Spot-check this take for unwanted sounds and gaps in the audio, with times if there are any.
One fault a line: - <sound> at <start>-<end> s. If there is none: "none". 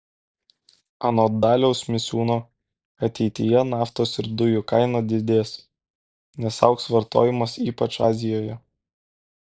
none